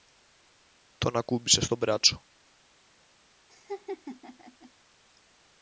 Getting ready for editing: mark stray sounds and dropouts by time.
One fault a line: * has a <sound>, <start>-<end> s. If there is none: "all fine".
* has a laugh, 3.5-4.7 s